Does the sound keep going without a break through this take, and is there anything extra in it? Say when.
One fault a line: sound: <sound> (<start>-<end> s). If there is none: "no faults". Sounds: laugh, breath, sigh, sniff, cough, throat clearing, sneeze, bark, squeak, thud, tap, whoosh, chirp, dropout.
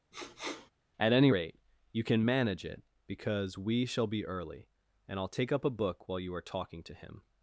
sound: sniff (0.1-0.7 s)